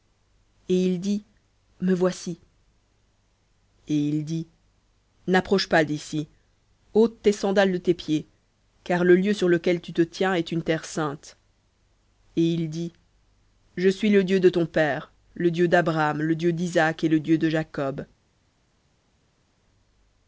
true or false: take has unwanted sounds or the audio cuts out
false